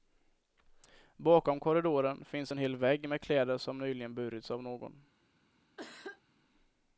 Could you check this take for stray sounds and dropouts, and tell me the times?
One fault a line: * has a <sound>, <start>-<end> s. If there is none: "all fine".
* has a cough, 5.8-6.2 s